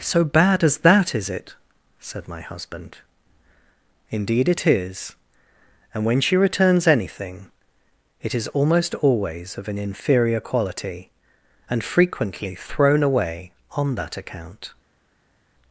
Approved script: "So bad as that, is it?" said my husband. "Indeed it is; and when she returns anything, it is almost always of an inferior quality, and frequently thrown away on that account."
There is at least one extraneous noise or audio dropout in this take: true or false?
false